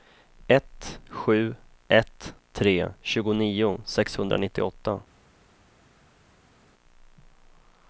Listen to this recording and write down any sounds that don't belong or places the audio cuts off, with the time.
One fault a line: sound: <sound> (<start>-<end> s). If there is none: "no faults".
no faults